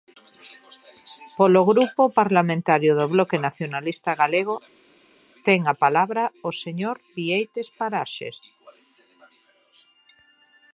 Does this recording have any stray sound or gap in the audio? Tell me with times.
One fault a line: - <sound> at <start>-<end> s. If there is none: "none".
none